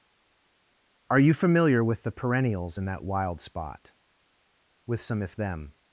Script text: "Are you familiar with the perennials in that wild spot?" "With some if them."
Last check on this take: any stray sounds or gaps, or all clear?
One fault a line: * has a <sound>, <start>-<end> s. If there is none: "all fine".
all fine